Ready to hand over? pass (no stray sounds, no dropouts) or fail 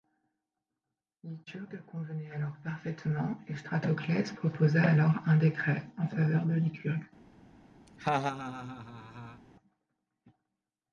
fail